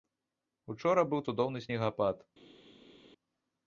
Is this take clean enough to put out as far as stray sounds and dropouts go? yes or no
yes